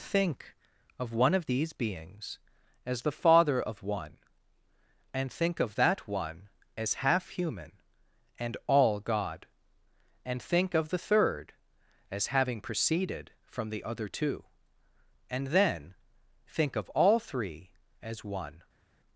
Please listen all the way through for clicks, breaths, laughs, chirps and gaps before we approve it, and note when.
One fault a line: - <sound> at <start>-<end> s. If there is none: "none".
none